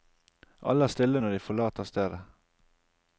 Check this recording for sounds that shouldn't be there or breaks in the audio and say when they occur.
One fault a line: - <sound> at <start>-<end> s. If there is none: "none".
none